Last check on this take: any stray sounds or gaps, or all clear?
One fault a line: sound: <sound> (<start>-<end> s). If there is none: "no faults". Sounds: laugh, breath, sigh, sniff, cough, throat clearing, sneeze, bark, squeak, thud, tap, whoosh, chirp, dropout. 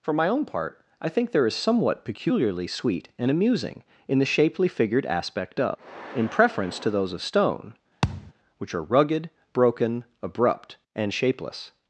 sound: thud (8.0-8.3 s)